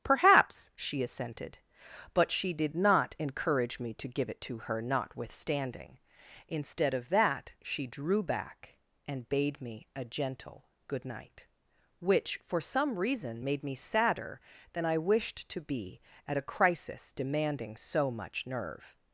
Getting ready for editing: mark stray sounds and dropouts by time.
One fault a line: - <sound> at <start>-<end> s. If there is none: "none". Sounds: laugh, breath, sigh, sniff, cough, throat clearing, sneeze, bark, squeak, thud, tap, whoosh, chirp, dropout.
none